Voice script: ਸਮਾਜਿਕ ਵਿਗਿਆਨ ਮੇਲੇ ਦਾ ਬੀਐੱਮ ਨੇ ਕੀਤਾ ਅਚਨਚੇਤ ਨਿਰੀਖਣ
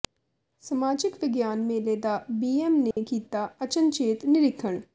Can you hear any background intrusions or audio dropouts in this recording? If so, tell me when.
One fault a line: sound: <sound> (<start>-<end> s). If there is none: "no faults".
sound: dropout (2.9-3.0 s)